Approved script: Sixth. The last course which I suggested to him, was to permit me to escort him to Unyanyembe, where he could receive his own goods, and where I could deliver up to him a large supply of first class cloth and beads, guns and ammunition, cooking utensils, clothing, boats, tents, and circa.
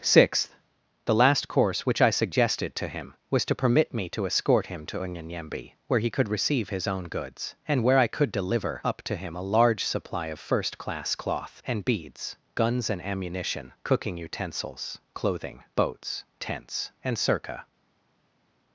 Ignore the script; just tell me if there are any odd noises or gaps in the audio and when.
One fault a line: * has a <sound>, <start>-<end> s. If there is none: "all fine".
all fine